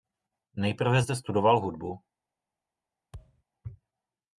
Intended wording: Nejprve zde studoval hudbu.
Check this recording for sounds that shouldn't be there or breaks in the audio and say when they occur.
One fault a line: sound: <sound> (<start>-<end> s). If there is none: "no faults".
sound: thud (3.1-3.4 s)